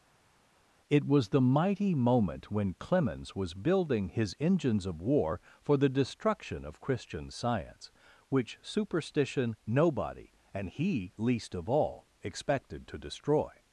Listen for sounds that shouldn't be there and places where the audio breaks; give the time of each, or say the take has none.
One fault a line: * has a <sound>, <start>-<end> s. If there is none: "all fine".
all fine